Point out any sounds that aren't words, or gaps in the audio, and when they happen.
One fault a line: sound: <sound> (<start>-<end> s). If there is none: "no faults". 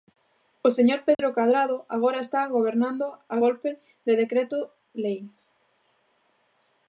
sound: dropout (1.1-1.2 s)